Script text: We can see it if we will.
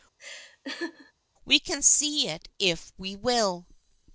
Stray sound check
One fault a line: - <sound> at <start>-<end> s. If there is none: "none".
- laugh at 0.2-1.1 s